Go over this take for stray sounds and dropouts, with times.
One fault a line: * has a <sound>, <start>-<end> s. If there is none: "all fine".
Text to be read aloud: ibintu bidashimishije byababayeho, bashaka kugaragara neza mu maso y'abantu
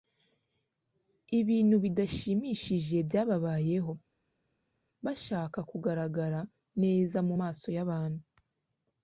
all fine